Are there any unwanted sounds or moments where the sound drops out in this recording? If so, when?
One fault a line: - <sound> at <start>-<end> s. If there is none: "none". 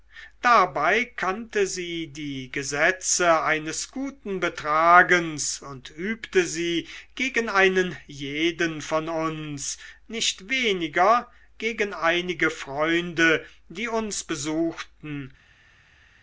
none